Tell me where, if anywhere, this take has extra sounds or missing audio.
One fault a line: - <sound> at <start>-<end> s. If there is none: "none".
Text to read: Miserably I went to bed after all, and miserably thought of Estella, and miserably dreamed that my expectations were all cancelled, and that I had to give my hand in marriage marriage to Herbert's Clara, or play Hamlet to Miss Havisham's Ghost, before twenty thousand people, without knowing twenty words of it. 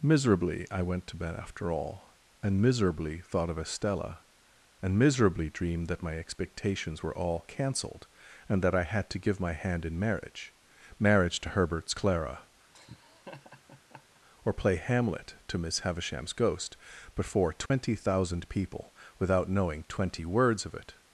- laugh at 12.7-14.2 s
- dropout at 17.7-17.7 s